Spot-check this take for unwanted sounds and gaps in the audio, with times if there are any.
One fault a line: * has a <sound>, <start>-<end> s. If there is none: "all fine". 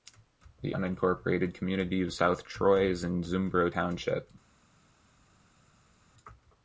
all fine